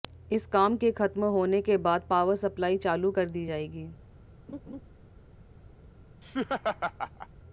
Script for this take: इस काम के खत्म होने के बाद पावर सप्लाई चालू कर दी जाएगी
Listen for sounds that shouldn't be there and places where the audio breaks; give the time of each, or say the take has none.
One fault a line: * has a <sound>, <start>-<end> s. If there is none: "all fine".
* has a laugh, 4.5-4.8 s
* has a laugh, 6.2-7.3 s